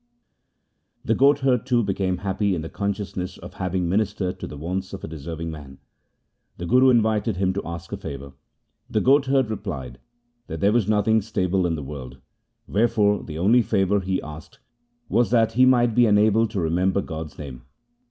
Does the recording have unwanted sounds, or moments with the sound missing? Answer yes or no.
no